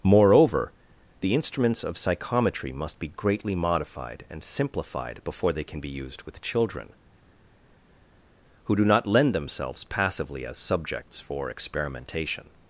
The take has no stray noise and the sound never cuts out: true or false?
true